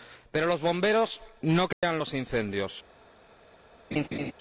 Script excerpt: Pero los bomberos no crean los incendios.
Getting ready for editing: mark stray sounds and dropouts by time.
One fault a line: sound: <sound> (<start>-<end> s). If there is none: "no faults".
sound: dropout (1.7-1.8 s)
sound: laugh (3.9-4.3 s)